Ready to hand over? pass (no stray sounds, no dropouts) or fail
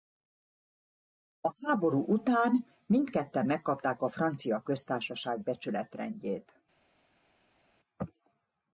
pass